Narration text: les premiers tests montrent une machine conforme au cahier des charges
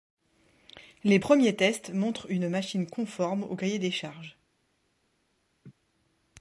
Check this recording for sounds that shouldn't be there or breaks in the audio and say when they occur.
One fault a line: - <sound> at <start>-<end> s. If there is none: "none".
- laugh at 5.6-5.7 s